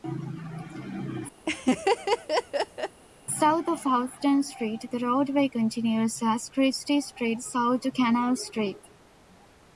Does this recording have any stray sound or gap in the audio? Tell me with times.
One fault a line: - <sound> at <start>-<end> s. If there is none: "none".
- laugh at 1.5-3.0 s